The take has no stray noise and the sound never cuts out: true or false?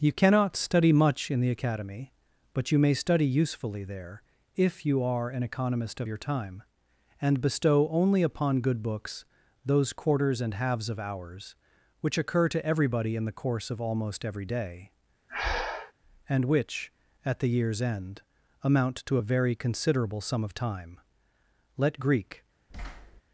false